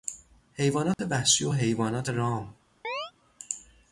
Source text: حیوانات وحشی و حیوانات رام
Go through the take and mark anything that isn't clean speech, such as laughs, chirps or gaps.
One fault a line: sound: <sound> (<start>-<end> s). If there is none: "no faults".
sound: dropout (0.9-1.0 s)
sound: chirp (2.8-3.1 s)